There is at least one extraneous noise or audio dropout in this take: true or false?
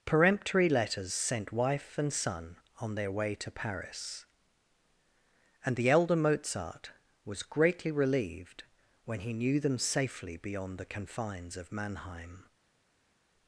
false